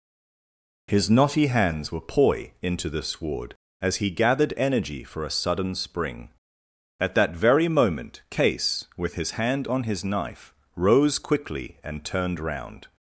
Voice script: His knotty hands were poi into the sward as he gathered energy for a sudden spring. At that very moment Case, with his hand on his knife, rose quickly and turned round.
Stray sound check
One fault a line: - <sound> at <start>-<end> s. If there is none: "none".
none